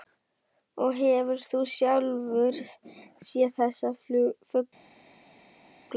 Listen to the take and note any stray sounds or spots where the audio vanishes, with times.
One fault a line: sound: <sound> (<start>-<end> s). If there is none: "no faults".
no faults